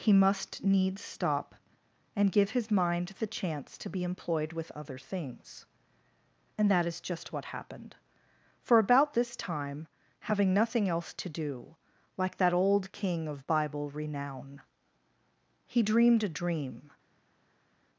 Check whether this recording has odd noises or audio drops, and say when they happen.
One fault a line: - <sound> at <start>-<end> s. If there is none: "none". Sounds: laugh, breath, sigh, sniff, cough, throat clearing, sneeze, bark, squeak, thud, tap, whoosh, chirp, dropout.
none